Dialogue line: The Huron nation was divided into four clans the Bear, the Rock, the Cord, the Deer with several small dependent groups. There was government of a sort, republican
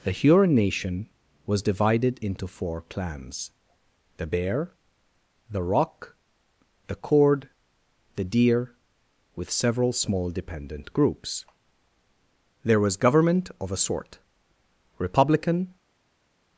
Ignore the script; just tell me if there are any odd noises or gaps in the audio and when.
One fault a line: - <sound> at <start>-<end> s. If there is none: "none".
none